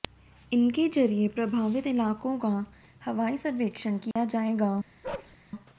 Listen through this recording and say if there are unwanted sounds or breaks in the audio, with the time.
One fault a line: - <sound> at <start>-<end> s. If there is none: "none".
- dropout at 4.1-4.2 s
- bark at 5.0-5.4 s